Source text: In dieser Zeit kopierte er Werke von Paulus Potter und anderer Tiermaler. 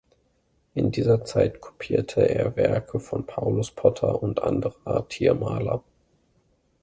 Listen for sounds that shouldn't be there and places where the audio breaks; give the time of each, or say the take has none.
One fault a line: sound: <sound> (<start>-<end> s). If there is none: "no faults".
no faults